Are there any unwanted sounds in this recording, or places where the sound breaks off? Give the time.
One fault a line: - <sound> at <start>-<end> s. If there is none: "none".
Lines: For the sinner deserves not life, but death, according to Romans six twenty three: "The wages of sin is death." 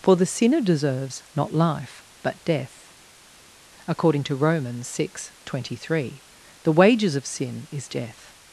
none